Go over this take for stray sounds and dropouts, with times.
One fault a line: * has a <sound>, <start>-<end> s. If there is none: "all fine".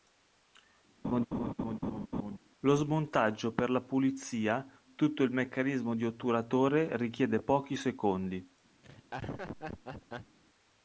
* has a laugh, 1.0-2.4 s
* has a laugh, 8.8-10.4 s